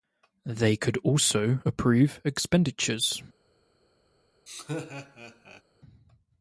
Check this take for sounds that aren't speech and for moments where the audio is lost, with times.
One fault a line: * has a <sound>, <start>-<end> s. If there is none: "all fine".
* has a laugh, 4.5-5.6 s